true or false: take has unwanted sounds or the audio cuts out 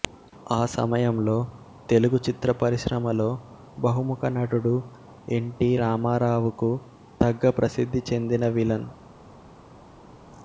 false